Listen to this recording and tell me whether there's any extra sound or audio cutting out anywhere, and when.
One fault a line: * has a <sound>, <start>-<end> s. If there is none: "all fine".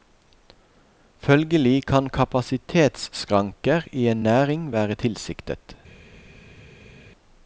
all fine